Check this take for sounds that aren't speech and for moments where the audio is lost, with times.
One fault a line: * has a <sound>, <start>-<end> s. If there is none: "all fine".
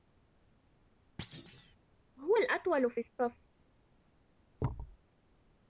* has a thud, 1.2-1.8 s
* has a thud, 4.6-5.0 s